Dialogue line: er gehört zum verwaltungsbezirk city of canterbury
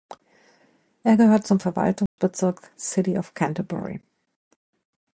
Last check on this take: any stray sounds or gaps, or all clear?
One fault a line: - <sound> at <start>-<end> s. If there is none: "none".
- dropout at 2.1-2.2 s